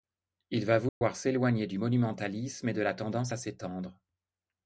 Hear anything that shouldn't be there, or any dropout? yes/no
yes